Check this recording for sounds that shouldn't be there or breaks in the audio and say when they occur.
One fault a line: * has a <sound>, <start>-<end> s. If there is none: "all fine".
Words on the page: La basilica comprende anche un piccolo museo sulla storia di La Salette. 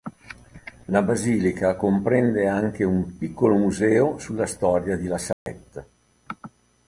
* has a dropout, 5.3-5.5 s